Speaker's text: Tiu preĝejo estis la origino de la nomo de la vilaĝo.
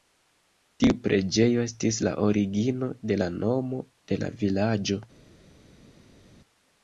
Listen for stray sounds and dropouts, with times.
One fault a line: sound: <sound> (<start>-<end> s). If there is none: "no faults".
no faults